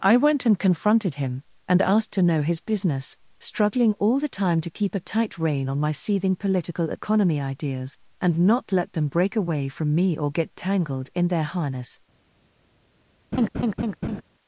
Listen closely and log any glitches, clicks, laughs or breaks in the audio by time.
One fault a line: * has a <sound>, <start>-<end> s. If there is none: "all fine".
* has a laugh, 13.3-14.2 s